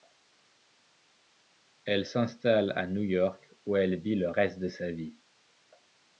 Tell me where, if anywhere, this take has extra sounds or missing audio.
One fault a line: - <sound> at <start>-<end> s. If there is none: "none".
none